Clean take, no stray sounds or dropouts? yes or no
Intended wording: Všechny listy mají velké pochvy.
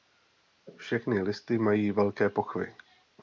yes